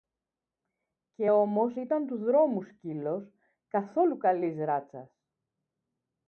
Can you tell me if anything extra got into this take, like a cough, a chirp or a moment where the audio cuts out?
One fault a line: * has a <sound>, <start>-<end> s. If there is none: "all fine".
all fine